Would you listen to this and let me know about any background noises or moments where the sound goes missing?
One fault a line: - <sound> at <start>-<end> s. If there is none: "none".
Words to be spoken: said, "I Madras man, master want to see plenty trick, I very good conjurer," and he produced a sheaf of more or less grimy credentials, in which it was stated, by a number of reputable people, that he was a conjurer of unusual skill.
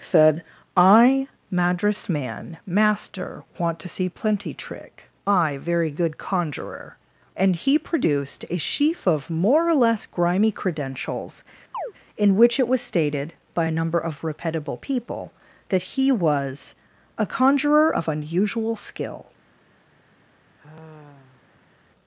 - chirp at 11.7-11.9 s
- sigh at 20.6-21.7 s